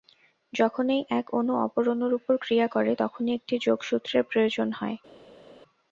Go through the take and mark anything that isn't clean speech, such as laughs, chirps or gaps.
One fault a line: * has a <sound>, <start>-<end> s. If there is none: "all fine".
all fine